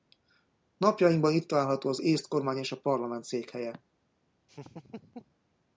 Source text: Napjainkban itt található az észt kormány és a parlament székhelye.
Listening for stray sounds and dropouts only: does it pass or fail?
fail